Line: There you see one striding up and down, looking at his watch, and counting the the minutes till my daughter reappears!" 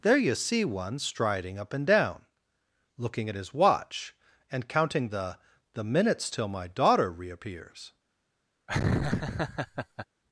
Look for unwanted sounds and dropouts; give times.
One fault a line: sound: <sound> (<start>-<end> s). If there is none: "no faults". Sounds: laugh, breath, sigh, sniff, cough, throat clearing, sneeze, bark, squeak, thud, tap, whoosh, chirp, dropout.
sound: laugh (8.7-10.1 s)